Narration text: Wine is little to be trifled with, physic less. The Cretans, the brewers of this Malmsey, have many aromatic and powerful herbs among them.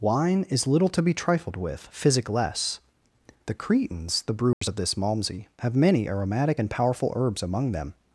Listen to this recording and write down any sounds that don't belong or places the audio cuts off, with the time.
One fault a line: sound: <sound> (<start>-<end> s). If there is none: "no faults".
sound: dropout (4.5-4.6 s)